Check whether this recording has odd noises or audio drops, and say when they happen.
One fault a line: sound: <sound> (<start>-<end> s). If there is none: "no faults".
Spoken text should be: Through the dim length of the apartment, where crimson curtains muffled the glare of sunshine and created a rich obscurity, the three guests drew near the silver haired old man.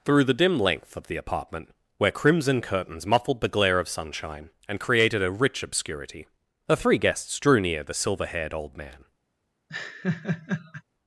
sound: laugh (9.7-10.8 s)